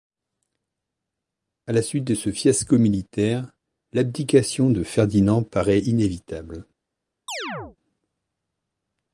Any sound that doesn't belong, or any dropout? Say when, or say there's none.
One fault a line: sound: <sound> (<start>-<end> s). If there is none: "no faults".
sound: chirp (7.3-7.8 s)